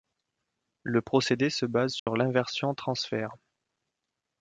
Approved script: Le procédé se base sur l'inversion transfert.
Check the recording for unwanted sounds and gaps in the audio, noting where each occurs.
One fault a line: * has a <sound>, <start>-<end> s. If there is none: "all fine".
* has a dropout, 2.0-2.1 s